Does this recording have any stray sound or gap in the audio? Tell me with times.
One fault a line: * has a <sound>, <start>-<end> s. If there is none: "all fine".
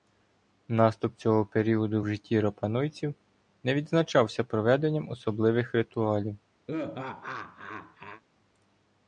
* has a laugh, 6.7-8.2 s